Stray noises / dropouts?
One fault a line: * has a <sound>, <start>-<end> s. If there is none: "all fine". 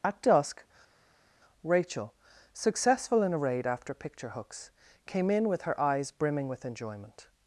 all fine